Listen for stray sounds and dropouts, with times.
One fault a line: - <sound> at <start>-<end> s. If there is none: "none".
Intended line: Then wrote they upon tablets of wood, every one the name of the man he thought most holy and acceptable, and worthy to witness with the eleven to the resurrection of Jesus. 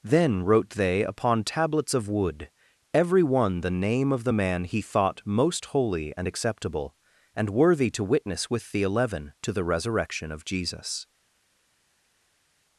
none